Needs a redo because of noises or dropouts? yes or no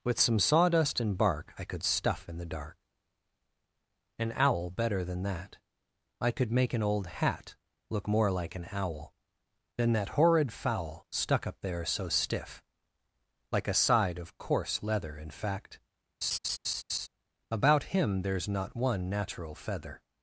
yes